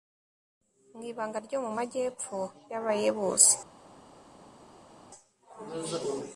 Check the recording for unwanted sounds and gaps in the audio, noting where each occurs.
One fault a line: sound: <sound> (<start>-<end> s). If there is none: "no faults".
no faults